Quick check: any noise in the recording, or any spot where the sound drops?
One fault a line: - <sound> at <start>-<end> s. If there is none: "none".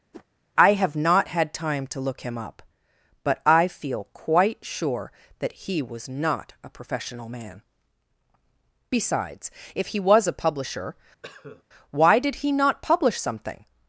- whoosh at 0.1-0.2 s
- cough at 11.2-11.6 s